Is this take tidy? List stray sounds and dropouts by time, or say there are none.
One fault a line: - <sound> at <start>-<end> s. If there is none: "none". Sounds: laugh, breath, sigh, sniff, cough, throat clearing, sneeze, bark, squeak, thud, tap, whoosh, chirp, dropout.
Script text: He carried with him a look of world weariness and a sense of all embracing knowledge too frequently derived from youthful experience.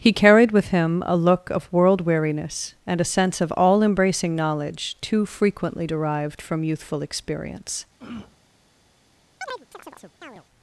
- throat clearing at 8.0-8.4 s
- chirp at 9.4-10.4 s